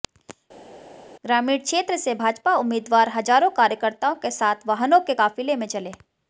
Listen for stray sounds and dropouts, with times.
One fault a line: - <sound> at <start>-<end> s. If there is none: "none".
none